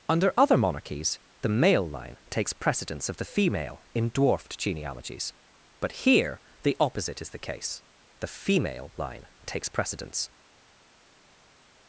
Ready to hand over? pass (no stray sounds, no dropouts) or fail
pass